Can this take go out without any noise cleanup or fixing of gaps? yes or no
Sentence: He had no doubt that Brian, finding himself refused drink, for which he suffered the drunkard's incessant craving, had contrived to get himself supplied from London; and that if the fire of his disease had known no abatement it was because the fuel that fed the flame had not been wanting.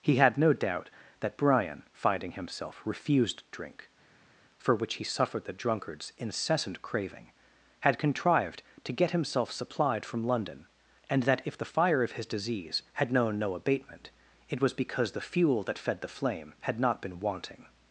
yes